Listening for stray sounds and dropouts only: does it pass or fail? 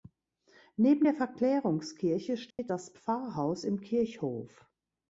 fail